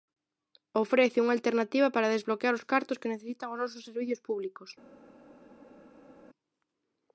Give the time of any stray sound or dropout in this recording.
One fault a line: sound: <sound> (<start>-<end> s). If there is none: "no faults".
no faults